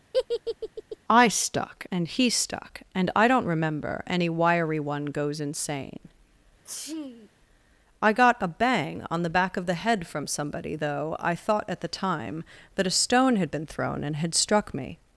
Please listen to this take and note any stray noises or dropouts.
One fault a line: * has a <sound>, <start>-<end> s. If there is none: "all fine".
* has a laugh, 0.1-1.0 s
* has a sneeze, 6.6-7.3 s